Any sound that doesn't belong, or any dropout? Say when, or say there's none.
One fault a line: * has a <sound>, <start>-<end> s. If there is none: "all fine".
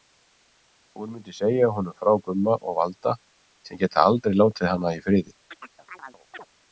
* has a chirp, 5.5-6.5 s